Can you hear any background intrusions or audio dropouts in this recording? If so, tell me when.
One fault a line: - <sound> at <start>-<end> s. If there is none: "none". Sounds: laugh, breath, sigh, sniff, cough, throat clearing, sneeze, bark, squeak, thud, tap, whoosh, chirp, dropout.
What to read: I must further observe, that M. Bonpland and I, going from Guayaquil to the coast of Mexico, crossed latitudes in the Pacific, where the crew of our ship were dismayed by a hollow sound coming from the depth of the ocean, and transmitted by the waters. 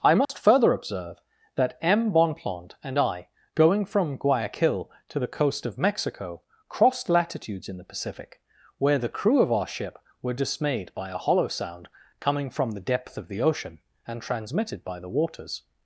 - dropout at 0.3-0.3 s